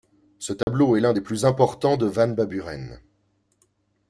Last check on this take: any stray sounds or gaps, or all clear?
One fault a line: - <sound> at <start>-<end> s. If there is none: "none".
- dropout at 0.6-0.7 s